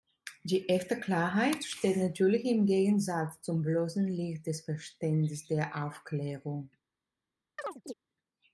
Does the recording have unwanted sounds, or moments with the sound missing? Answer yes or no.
yes